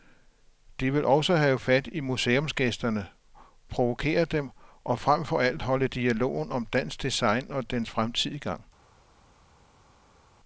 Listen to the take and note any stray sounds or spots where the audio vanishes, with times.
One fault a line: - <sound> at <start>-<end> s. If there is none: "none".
none